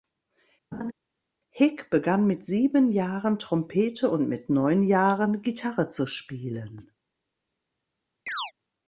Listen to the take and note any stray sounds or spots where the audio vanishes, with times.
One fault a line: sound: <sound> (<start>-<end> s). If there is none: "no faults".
sound: laugh (0.7-0.9 s)
sound: chirp (8.3-8.5 s)